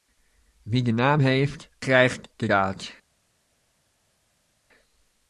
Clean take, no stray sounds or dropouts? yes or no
yes